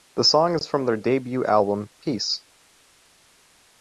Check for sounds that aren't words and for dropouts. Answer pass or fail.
pass